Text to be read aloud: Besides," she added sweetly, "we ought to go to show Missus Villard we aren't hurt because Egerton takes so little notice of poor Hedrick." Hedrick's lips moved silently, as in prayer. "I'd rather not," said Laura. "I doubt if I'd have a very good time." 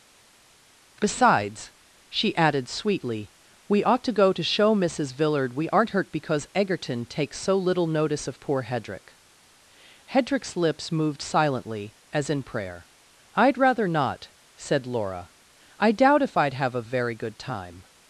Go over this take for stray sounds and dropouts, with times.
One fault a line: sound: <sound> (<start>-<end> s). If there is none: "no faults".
no faults